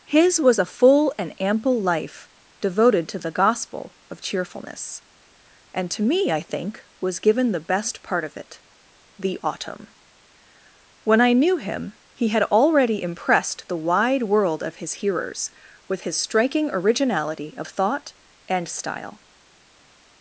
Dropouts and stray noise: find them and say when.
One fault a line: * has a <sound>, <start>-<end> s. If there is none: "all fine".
all fine